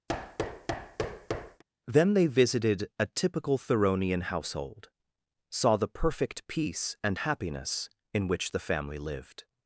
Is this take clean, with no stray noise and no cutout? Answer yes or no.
no